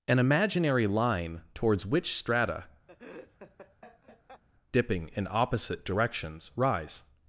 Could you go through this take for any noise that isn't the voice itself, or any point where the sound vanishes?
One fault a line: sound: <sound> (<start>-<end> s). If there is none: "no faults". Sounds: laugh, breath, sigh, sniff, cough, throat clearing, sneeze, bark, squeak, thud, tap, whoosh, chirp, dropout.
sound: laugh (2.9-4.4 s)